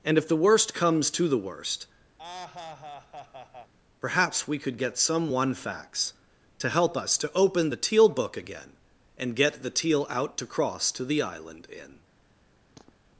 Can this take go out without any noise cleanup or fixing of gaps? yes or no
no